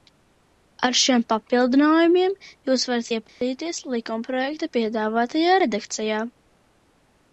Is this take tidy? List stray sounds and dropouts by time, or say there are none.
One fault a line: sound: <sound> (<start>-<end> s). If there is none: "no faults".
sound: dropout (3.3-3.4 s)